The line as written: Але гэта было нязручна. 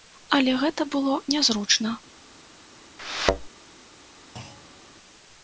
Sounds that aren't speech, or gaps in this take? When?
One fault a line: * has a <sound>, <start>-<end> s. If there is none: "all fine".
* has a thud, 3.0-3.5 s
* has a thud, 4.4-4.9 s